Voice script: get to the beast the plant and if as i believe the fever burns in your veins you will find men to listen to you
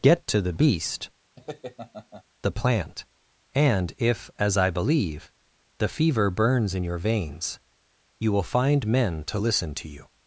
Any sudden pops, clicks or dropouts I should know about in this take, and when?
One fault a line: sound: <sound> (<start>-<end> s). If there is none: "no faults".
sound: laugh (1.4-2.2 s)